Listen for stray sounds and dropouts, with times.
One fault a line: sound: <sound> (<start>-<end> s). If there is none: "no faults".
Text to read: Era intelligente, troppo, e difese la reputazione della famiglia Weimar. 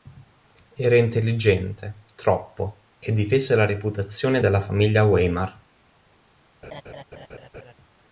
sound: laugh (6.6-7.7 s)